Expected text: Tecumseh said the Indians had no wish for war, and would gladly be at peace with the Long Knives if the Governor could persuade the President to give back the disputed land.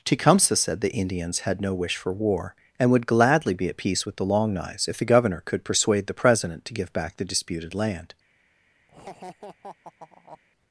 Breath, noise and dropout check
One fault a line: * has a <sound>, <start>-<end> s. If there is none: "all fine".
* has a laugh, 8.9-10.4 s